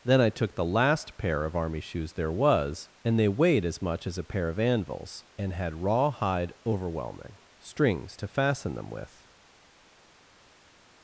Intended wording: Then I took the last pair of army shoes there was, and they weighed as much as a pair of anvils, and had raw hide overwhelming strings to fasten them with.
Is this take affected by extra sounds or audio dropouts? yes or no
no